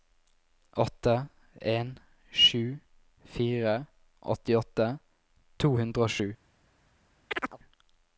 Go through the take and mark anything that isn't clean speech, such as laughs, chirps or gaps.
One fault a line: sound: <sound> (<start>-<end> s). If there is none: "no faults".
sound: chirp (7.3-7.6 s)